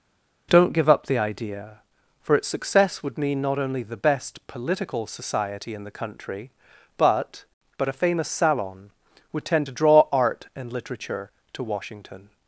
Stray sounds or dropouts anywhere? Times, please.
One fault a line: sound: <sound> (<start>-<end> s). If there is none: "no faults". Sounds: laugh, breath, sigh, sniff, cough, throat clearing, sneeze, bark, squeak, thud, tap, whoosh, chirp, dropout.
no faults